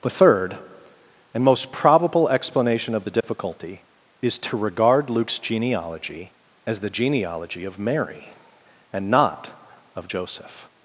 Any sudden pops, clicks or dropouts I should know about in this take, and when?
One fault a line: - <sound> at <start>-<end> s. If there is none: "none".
- dropout at 3.2-3.2 s